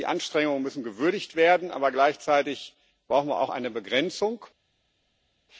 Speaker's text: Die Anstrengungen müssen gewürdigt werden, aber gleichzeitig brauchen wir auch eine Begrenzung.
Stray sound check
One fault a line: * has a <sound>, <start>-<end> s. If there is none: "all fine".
all fine